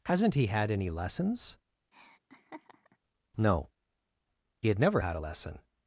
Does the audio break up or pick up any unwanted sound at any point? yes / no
yes